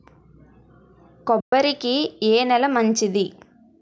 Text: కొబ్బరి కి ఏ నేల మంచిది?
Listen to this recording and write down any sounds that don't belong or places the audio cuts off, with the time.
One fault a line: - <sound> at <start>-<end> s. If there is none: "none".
- dropout at 1.4-1.5 s